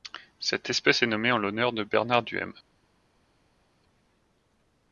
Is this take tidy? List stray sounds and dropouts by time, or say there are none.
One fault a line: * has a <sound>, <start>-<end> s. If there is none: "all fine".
all fine